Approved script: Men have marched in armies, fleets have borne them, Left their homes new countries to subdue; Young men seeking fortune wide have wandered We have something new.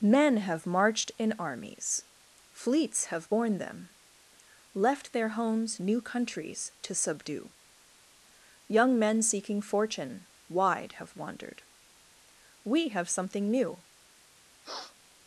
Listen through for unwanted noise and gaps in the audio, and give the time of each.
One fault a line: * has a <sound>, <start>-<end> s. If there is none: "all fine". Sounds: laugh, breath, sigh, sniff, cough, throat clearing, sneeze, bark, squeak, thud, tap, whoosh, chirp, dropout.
* has a sniff, 14.6-15.0 s